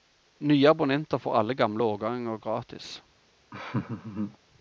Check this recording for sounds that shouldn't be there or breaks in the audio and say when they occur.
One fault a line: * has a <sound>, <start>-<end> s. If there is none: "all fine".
* has a laugh, 3.5-4.4 s